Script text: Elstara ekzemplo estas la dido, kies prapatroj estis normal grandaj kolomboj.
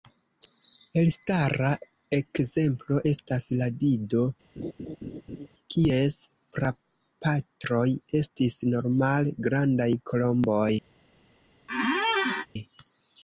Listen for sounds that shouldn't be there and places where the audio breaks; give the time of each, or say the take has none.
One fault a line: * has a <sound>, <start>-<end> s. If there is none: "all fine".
* has a laugh, 4.6-5.5 s
* has a squeak, 11.7-12.5 s